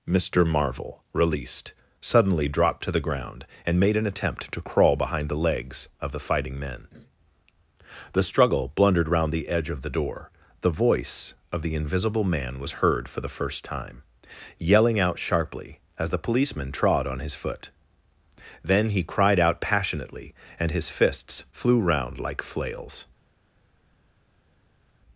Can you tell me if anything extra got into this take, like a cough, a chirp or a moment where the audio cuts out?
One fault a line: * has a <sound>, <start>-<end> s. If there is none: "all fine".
all fine